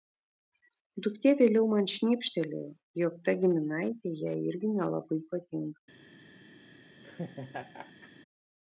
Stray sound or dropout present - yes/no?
yes